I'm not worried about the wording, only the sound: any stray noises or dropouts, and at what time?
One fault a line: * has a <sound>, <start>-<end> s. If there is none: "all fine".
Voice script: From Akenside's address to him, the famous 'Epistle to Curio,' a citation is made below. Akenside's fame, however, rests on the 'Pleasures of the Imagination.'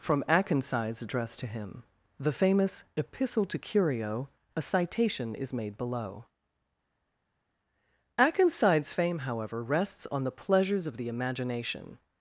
all fine